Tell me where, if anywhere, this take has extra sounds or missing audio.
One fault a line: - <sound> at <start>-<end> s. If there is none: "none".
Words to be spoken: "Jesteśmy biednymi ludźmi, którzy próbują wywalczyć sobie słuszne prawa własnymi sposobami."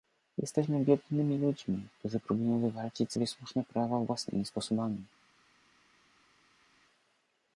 none